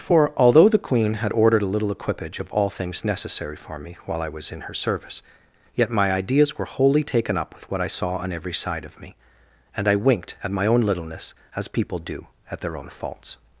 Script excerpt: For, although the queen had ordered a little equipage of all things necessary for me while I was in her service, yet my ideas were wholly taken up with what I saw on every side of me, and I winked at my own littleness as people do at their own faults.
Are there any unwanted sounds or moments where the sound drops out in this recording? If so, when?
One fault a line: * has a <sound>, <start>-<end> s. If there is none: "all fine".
all fine